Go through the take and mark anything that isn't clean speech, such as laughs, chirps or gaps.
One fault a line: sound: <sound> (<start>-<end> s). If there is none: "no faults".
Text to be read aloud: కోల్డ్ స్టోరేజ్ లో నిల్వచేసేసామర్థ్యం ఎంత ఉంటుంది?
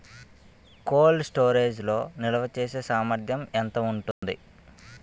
sound: dropout (4.1-4.2 s)